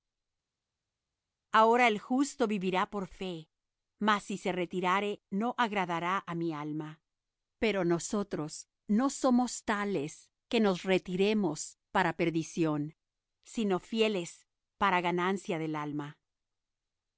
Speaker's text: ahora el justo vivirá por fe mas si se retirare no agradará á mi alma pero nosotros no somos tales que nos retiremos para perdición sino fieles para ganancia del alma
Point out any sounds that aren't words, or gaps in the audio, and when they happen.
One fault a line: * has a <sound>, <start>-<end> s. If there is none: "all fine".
all fine